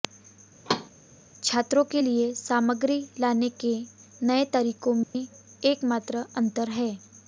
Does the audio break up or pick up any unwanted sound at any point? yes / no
yes